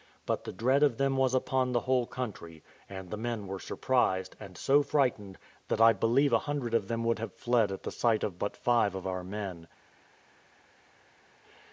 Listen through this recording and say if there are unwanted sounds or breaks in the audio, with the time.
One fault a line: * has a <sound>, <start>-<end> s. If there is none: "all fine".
all fine